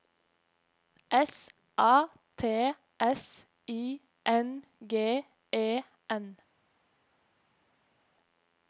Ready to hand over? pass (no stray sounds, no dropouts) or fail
pass